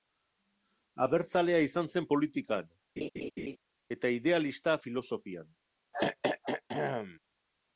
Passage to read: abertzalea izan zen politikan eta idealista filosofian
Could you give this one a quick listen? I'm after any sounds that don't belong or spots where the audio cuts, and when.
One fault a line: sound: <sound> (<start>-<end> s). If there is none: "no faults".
sound: laugh (3.0-3.6 s)
sound: throat clearing (5.9-7.2 s)